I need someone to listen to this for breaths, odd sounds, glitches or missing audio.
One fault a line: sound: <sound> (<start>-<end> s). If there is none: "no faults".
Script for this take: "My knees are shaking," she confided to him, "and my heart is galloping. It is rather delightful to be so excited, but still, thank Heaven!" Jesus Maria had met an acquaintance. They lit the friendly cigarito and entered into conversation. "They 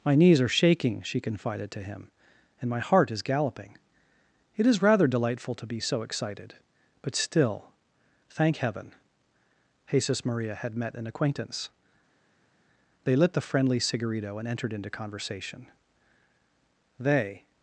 no faults